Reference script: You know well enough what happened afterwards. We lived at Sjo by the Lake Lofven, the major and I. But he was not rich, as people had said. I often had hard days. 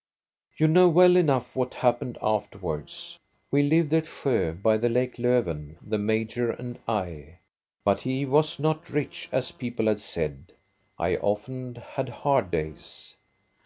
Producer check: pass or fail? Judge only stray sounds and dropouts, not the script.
pass